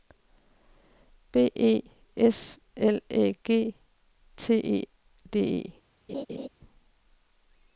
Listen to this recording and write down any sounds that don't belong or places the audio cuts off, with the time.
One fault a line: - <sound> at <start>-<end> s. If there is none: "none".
- laugh at 6.1-6.5 s